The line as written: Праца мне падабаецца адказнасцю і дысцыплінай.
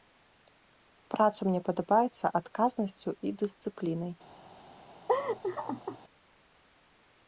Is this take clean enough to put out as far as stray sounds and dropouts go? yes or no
no